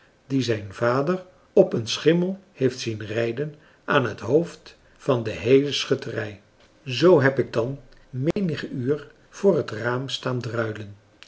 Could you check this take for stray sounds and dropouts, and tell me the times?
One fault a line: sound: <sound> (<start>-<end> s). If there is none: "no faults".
sound: dropout (8.3-8.4 s)